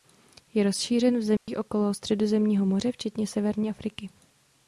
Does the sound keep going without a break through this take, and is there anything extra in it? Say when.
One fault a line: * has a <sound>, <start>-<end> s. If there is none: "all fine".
* has a dropout, 1.4-1.5 s